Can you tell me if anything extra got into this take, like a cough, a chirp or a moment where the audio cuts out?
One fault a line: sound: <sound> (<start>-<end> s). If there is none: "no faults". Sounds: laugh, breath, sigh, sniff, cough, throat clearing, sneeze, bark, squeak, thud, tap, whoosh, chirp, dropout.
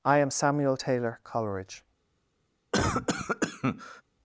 sound: cough (2.7-4.0 s)